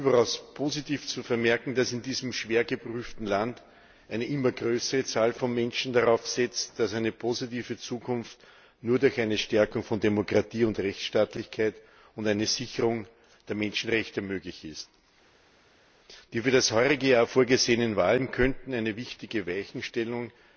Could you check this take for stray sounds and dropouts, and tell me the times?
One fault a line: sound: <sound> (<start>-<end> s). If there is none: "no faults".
no faults